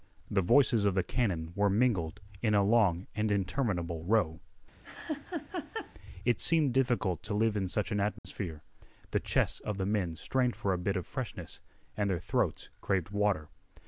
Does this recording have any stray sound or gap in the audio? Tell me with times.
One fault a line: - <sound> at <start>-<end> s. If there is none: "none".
- laugh at 4.8-5.9 s
- dropout at 8.2-8.2 s